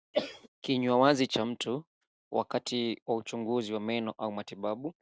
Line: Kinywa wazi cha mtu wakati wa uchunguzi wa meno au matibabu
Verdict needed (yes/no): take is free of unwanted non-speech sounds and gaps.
no